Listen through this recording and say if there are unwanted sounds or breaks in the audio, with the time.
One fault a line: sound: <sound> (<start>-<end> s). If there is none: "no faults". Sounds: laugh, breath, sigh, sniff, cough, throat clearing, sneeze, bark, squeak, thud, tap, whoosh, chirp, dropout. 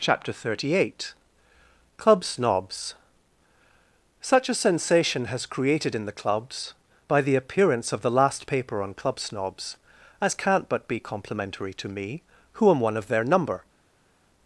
no faults